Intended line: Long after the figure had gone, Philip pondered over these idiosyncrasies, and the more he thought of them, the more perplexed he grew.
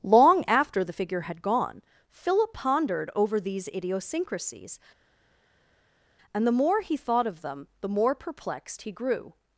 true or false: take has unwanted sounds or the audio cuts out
false